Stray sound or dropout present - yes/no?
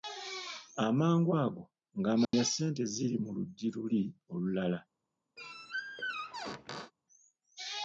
yes